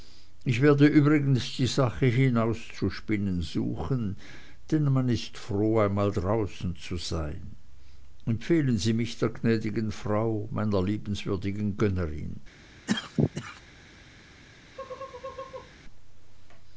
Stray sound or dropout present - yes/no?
yes